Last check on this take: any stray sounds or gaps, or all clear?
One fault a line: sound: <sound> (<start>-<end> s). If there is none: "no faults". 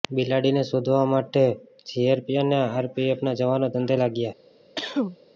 sound: cough (4.8-5.2 s)